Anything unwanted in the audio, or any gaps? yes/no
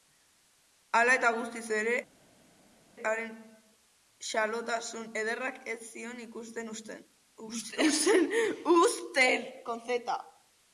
no